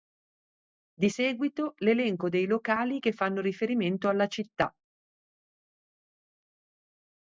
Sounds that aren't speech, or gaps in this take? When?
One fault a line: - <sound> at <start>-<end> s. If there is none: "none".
none